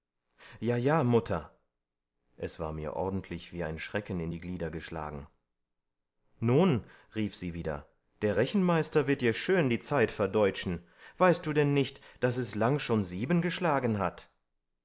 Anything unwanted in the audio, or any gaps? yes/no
no